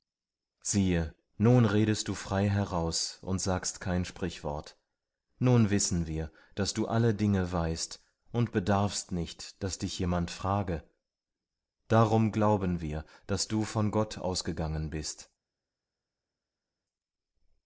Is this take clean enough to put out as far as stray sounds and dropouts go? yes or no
yes